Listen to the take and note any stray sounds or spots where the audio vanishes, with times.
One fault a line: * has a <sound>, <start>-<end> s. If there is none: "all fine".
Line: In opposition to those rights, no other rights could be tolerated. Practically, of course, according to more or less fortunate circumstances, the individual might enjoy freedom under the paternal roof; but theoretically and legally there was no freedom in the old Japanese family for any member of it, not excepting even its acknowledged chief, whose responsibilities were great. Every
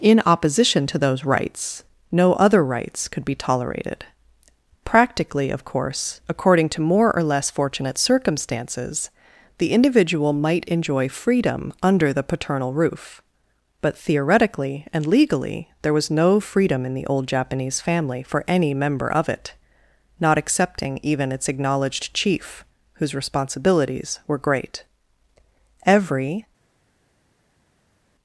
all fine